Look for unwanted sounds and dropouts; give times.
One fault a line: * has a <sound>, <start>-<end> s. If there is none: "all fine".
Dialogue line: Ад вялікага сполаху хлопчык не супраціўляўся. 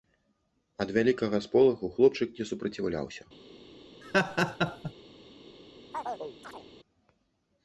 * has a laugh, 4.0-4.9 s
* has a chirp, 5.9-6.7 s